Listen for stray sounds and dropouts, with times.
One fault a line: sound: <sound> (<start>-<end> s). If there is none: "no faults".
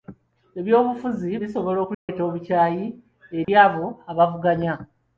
sound: dropout (1.9-2.1 s)
sound: dropout (3.4-3.5 s)